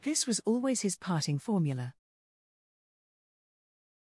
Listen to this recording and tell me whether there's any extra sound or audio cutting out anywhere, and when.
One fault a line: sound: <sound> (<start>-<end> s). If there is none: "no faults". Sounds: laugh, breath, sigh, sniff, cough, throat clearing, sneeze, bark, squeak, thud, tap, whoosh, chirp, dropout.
no faults